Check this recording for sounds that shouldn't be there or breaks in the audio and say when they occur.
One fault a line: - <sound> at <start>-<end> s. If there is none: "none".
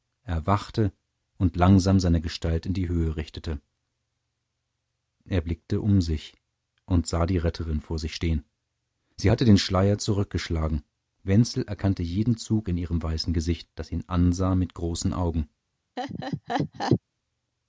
- laugh at 16.0-17.0 s